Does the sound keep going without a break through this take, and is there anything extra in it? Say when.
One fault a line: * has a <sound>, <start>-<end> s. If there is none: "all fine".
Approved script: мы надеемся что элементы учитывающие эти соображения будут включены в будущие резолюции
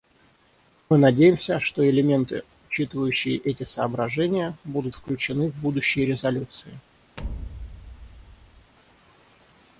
* has a thud, 7.2-8.7 s